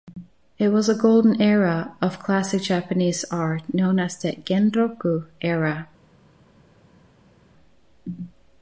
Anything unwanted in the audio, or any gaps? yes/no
no